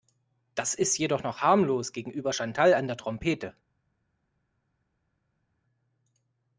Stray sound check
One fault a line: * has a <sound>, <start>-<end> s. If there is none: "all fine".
all fine